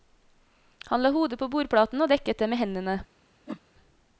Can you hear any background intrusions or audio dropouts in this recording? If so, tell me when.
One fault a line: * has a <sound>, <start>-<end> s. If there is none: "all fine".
* has a whoosh, 3.5-3.6 s